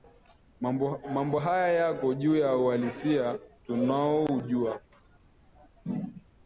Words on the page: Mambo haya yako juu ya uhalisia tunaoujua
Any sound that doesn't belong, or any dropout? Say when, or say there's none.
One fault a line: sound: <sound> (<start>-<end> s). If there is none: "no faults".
no faults